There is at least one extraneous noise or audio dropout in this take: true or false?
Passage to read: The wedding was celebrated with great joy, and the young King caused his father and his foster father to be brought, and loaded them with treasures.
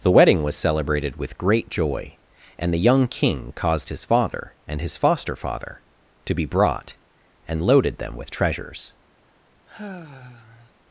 true